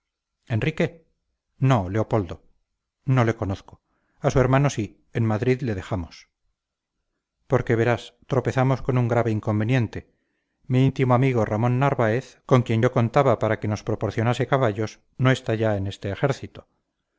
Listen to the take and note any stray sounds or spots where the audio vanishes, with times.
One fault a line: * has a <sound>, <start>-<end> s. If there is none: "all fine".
all fine